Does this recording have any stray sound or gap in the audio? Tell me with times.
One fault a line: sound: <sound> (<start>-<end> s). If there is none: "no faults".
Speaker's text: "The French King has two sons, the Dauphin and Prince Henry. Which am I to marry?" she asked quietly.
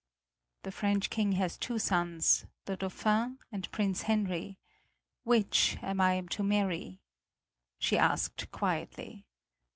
no faults